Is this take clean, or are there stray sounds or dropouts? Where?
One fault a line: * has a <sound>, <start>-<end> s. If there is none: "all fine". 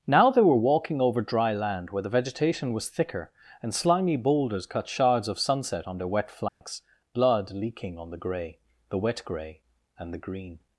* has a dropout, 6.5-6.6 s